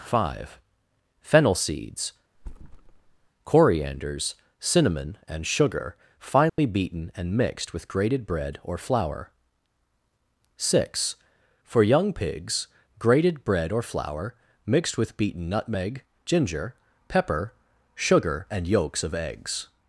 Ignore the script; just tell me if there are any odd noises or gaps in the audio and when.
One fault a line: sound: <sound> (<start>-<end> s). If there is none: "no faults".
sound: thud (2.3-3.3 s)
sound: dropout (6.5-6.6 s)